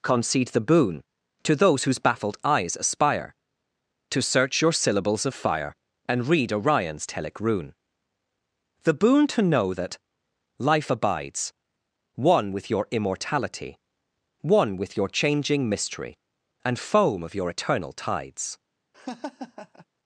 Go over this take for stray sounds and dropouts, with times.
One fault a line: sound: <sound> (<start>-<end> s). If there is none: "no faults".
sound: laugh (18.9-19.9 s)